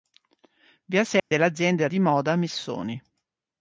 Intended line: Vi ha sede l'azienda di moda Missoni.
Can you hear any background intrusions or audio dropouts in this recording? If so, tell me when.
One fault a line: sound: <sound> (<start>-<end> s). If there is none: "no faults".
sound: dropout (1.2-1.3 s)